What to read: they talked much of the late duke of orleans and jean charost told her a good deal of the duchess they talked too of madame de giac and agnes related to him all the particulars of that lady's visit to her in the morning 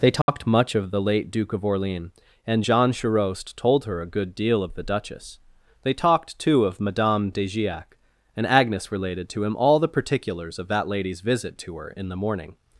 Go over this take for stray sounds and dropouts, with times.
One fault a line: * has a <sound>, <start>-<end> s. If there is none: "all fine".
* has a dropout, 0.2-0.3 s